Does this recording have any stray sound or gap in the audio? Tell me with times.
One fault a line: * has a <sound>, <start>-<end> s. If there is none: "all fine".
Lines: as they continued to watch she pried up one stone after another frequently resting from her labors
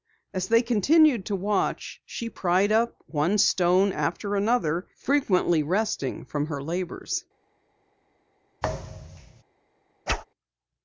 * has a thud, 8.6-9.4 s
* has a whoosh, 10.1-10.2 s